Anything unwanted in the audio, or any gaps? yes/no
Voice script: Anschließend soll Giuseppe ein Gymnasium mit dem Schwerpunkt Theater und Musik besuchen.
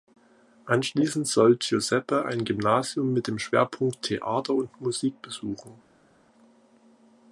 no